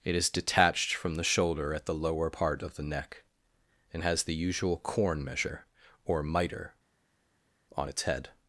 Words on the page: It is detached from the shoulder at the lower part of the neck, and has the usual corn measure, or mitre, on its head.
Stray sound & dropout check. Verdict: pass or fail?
pass